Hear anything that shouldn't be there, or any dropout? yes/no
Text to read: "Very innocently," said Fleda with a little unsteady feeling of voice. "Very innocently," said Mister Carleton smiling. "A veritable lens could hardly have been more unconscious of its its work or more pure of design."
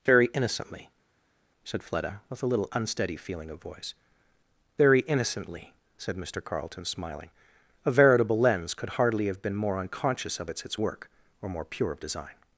no